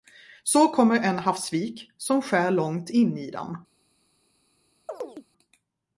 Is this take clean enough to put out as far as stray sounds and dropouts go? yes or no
no